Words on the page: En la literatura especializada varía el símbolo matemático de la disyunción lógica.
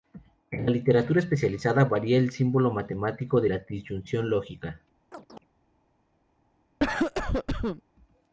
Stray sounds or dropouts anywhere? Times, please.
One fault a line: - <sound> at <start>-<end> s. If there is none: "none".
- chirp at 5.1-5.5 s
- cough at 6.8-7.8 s